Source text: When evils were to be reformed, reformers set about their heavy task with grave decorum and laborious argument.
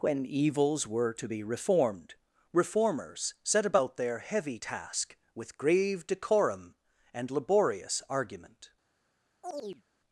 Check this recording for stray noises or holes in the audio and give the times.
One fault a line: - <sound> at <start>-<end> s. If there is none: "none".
- chirp at 9.4-9.8 s